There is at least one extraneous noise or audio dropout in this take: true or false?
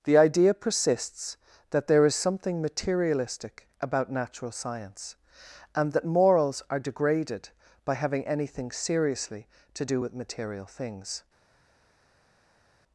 false